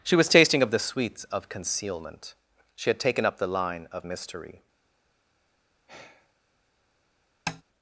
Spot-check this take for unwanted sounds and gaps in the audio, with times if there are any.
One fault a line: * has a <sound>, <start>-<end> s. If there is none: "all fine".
* has a sigh, 5.9-6.3 s
* has a tap, 7.5-7.6 s